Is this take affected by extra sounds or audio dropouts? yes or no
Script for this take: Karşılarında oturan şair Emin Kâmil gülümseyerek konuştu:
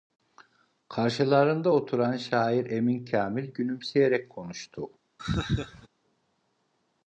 yes